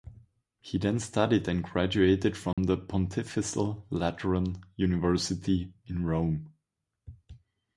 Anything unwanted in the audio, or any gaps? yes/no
yes